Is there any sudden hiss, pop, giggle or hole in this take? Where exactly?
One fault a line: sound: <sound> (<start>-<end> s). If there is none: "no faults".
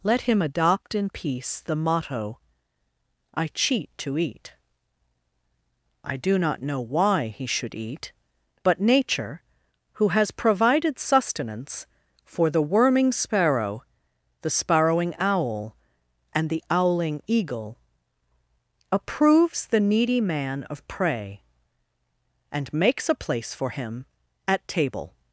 no faults